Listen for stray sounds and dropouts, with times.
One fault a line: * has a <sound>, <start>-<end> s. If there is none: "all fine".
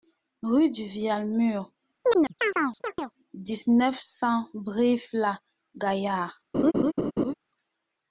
* has a chirp, 2.0-3.1 s
* has a laugh, 6.5-7.3 s